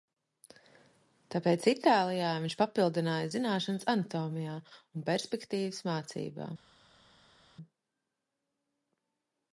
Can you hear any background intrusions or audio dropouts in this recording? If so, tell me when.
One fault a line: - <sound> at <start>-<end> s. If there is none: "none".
none